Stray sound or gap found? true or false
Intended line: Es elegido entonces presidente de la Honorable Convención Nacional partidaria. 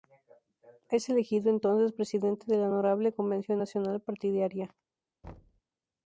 true